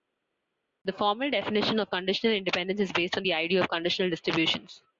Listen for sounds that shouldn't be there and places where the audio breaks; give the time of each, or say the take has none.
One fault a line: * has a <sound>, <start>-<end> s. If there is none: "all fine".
all fine